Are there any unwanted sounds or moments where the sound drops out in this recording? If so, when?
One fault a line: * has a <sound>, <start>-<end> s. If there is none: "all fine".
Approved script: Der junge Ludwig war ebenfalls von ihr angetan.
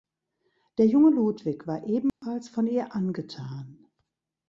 * has a dropout, 2.1-2.2 s